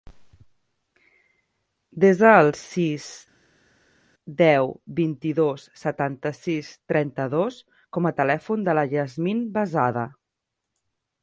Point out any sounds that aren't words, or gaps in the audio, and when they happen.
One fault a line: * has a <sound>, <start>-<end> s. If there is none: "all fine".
all fine